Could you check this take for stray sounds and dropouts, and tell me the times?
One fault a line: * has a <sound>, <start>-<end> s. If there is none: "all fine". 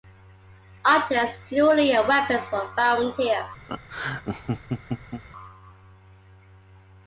* has a laugh, 3.7-5.2 s